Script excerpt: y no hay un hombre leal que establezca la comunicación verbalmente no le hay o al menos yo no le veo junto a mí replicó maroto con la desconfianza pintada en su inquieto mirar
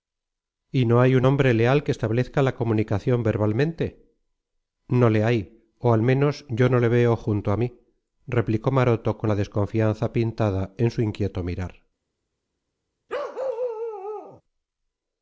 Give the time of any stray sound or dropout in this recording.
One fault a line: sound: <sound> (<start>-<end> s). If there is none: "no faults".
sound: bark (13.1-14.4 s)